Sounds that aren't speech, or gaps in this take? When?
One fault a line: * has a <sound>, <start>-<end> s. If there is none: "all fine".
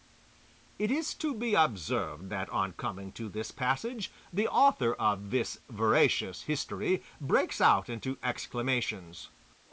all fine